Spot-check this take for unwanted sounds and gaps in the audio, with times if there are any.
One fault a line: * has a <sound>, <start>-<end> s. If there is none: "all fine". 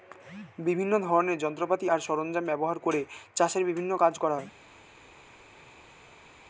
all fine